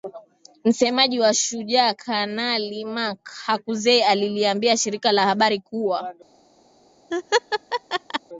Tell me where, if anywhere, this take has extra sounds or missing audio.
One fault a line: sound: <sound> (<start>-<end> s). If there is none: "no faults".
sound: laugh (7.1-8.2 s)